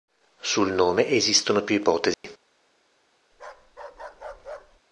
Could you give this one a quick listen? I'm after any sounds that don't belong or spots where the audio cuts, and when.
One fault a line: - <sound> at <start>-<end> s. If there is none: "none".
- dropout at 2.1-2.2 s
- bark at 3.3-4.8 s